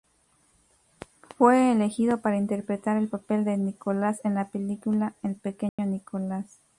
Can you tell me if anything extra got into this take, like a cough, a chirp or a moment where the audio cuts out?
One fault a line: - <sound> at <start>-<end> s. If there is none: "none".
- dropout at 5.7-5.8 s